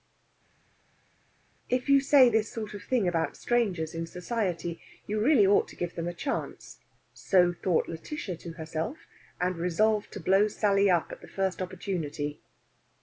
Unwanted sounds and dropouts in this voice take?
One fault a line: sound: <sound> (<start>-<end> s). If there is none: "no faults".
no faults